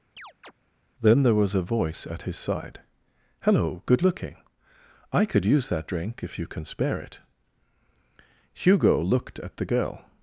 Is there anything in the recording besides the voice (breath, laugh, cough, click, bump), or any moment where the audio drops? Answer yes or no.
yes